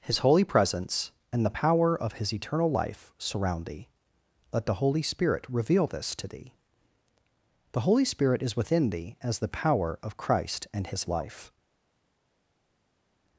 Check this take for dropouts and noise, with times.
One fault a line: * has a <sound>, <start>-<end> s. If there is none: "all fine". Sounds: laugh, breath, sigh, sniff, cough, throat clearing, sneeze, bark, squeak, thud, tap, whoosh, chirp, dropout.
all fine